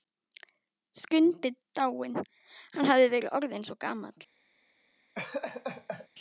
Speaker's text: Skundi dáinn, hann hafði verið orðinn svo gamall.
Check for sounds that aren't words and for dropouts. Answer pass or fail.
fail